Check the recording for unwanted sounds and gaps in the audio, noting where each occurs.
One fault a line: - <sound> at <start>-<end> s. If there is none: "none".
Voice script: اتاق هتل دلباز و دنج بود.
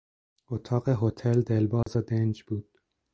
- dropout at 1.8-1.9 s